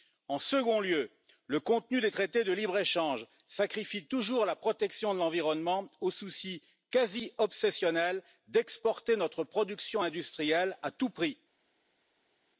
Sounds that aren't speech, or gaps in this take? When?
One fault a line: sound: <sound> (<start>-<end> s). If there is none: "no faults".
no faults